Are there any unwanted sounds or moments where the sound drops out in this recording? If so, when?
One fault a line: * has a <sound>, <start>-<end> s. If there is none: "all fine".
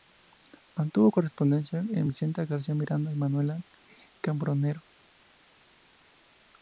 all fine